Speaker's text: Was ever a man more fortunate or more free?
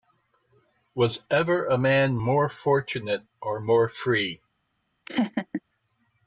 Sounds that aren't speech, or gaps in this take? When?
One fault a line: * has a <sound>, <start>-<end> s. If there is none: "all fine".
* has a laugh, 5.1-5.6 s